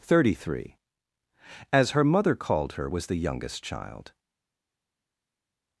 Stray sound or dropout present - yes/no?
no